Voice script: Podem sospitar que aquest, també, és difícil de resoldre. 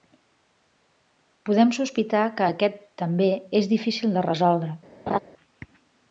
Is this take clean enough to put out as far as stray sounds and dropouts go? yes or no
no